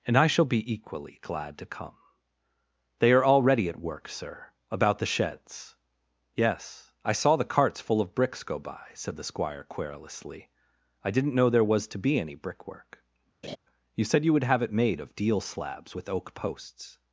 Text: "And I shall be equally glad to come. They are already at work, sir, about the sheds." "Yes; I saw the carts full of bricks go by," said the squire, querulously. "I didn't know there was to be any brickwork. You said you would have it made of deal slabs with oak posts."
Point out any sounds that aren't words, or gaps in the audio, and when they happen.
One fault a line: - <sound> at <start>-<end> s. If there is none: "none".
- laugh at 13.4-13.6 s